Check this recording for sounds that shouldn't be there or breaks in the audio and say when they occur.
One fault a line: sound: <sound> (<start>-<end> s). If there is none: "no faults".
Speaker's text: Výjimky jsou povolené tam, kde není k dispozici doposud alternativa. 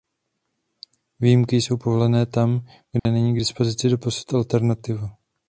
sound: dropout (3.0-3.1 s)